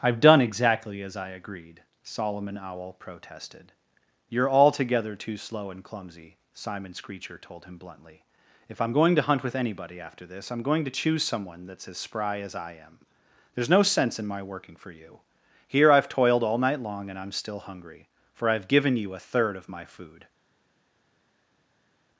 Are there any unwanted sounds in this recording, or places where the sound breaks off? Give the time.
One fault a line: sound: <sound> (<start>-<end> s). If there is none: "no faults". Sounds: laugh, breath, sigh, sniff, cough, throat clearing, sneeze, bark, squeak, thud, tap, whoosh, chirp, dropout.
no faults